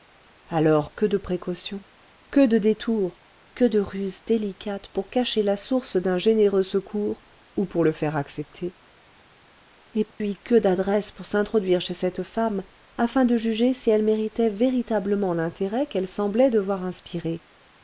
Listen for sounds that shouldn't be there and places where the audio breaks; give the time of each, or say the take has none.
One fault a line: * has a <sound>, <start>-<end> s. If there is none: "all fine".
* has a dropout, 10.1-10.2 s